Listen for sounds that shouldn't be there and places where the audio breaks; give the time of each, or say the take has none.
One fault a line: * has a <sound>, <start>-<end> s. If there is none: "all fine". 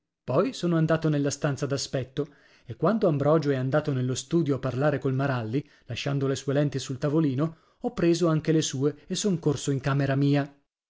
all fine